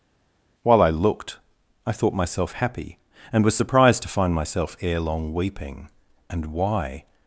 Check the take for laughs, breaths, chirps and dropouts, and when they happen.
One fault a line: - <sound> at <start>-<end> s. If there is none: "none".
none